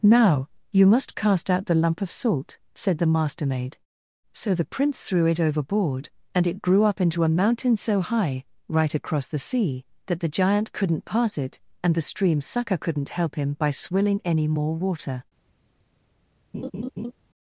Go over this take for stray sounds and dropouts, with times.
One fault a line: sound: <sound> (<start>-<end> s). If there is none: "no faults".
sound: laugh (16.5-17.1 s)